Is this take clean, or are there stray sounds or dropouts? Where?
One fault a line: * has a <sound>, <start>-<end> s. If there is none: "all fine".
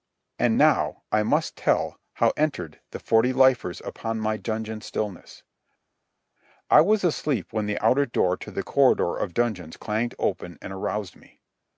all fine